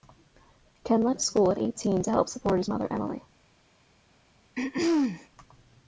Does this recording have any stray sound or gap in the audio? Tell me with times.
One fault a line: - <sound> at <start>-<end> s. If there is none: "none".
- throat clearing at 4.6-5.3 s